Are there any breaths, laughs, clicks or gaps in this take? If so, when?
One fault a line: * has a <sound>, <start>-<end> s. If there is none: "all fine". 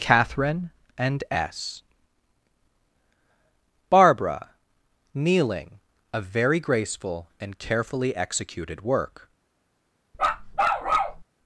* has a bark, 10.1-11.2 s